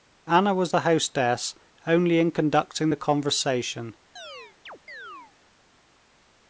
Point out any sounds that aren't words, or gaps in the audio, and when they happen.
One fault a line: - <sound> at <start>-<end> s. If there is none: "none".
- chirp at 4.2-5.3 s